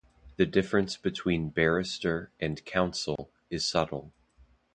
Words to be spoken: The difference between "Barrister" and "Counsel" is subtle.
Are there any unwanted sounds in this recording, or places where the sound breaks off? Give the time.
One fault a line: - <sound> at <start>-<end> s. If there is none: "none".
- dropout at 3.2-3.2 s